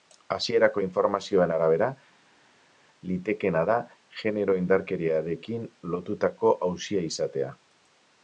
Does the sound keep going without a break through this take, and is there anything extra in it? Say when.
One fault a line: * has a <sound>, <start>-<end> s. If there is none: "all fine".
all fine